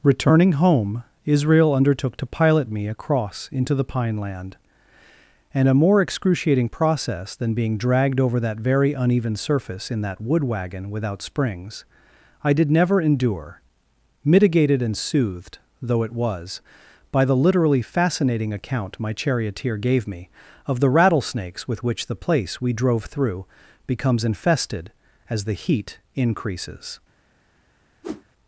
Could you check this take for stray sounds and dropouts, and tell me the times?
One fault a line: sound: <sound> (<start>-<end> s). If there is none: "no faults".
sound: whoosh (28.0-28.2 s)